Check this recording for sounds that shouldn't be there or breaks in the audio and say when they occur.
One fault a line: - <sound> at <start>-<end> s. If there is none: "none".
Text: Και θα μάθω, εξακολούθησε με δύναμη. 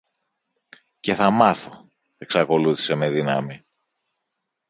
none